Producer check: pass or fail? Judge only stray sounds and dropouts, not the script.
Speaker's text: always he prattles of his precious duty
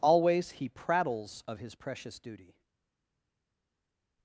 pass